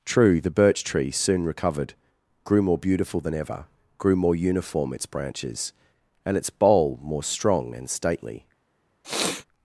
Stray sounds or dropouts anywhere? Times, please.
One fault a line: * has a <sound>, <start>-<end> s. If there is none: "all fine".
* has a sniff, 9.0-9.5 s